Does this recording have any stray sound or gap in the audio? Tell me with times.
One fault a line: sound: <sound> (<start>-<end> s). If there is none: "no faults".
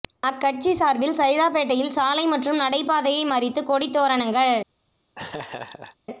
sound: laugh (5.1-6.0 s)